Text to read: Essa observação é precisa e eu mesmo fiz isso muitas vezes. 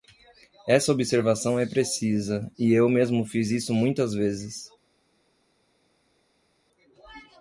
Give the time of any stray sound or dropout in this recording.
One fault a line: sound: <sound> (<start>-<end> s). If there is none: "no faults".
no faults